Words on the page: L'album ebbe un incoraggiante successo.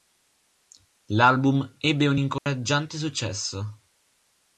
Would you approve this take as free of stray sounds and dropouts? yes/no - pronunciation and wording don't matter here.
no